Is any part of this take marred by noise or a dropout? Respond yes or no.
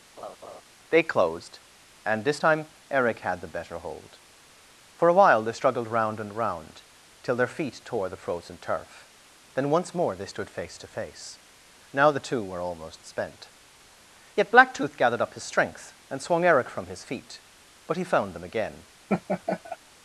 yes